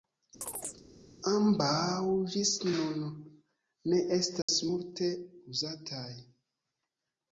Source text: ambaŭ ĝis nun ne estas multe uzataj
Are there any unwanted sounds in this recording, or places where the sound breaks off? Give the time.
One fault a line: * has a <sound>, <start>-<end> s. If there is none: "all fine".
* has a chirp, 0.4-0.8 s
* has a dropout, 4.4-4.5 s